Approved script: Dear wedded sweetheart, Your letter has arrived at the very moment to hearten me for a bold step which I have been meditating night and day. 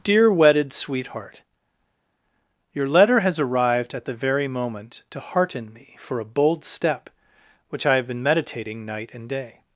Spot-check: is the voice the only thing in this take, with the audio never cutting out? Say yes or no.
yes